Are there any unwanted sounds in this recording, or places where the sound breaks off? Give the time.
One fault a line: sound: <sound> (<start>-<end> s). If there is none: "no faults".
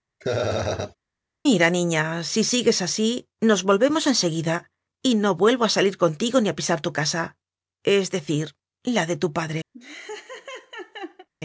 sound: laugh (0.2-1.0 s)
sound: laugh (9.7-11.3 s)